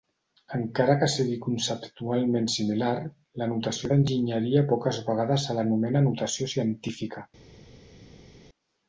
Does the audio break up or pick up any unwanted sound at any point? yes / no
no